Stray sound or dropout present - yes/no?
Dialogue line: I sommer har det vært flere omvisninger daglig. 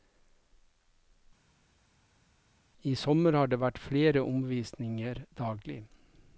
no